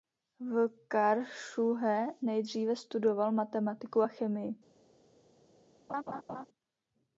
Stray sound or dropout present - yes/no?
yes